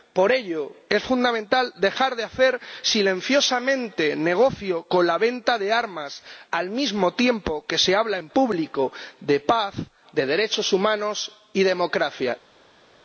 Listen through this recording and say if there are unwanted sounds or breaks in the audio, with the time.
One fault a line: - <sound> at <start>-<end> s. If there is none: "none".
none